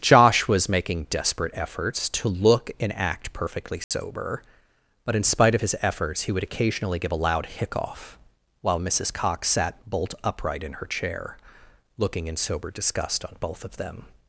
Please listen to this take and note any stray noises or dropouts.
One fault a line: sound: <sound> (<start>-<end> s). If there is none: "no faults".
sound: dropout (3.8-3.9 s)